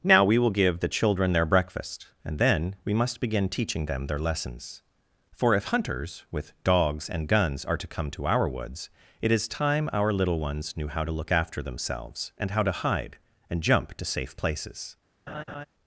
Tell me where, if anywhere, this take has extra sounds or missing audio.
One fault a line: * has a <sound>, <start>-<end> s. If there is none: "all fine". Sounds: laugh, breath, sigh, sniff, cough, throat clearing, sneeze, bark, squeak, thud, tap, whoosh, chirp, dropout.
* has a laugh, 15.3-15.7 s